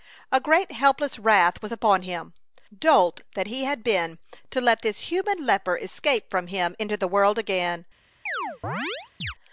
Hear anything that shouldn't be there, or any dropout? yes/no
yes